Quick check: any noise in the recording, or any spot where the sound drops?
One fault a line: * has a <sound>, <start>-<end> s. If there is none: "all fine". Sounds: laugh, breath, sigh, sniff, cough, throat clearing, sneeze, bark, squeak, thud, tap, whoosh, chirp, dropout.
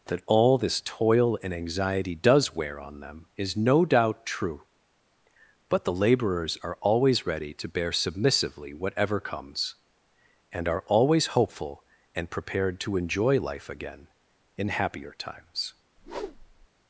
* has a whoosh, 16.0-16.7 s